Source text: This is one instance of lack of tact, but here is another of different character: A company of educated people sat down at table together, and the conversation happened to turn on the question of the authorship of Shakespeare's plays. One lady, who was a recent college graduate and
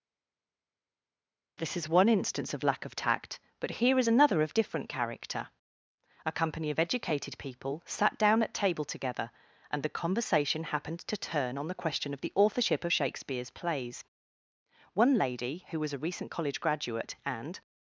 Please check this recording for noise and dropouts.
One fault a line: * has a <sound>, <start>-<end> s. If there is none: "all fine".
all fine